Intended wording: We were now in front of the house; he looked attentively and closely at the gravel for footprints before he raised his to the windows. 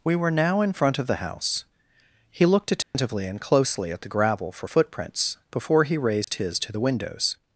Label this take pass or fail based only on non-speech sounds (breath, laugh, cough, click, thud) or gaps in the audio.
fail